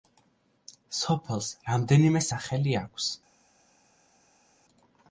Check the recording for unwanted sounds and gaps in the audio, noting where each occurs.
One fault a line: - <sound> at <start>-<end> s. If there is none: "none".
none